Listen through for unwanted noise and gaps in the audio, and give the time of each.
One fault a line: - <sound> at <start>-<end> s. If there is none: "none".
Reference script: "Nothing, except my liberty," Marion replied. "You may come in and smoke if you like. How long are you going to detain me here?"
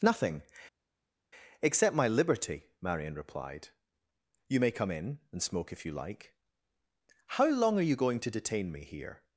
none